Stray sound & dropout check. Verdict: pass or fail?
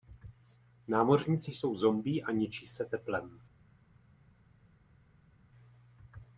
pass